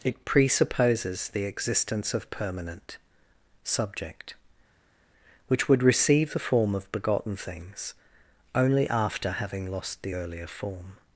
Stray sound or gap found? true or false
false